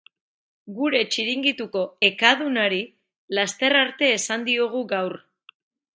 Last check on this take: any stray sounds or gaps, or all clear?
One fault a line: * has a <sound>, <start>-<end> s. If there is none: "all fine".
all fine